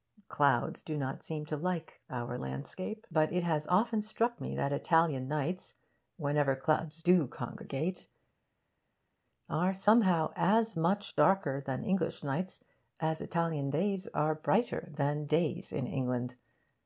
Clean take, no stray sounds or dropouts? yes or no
yes